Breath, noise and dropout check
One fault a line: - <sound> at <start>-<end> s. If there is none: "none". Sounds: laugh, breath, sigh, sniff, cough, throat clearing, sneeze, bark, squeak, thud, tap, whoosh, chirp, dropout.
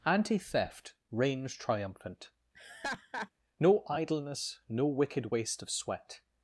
- laugh at 2.5-3.3 s